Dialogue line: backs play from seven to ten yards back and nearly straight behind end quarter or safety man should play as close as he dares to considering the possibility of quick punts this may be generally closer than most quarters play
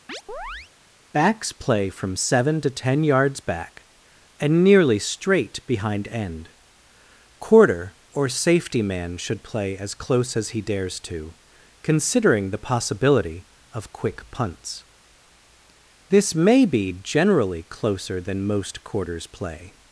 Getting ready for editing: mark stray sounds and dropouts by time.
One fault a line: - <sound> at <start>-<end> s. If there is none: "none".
- chirp at 0.1-0.7 s